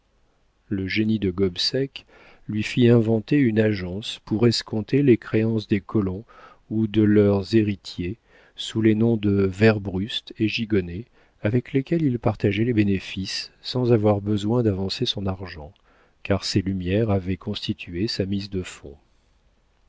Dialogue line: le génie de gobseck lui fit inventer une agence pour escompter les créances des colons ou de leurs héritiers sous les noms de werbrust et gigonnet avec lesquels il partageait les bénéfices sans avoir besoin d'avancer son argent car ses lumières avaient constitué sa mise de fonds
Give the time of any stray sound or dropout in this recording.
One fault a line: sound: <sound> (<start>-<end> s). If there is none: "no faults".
no faults